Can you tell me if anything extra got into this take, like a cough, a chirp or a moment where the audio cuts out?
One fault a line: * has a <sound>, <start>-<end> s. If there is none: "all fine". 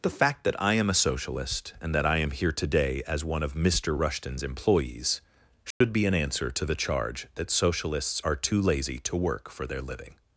* has a dropout, 5.7-5.8 s